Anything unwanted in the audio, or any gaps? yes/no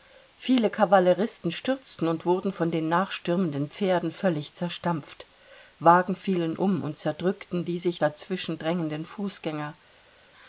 no